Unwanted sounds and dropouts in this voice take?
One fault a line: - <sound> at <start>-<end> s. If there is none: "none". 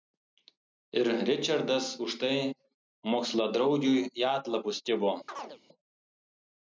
- chirp at 5.3-5.6 s